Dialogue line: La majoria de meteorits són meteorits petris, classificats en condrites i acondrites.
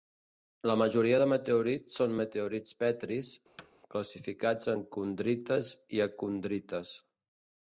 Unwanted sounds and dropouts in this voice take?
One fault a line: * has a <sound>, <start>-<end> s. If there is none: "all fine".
* has a thud, 3.6-3.7 s